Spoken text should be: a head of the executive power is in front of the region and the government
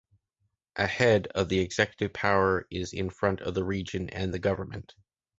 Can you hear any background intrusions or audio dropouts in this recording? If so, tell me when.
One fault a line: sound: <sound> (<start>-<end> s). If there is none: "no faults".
no faults